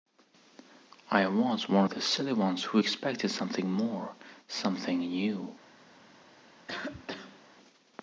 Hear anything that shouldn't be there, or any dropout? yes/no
yes